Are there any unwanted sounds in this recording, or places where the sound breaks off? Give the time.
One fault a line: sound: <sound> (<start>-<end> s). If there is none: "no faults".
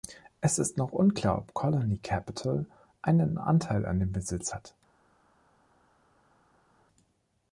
no faults